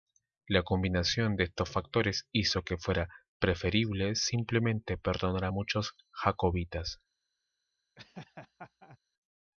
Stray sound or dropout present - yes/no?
yes